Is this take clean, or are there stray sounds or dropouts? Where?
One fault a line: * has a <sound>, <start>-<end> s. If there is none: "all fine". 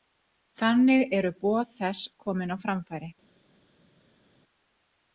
all fine